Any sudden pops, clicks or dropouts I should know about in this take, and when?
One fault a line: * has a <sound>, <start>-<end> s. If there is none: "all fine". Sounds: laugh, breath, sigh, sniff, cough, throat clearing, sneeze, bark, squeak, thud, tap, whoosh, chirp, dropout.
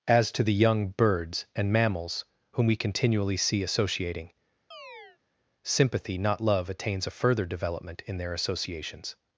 * has a chirp, 4.7-5.2 s